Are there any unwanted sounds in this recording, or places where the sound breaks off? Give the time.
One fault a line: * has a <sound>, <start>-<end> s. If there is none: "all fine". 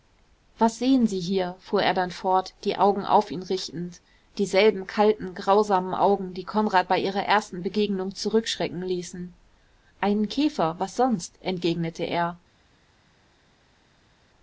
all fine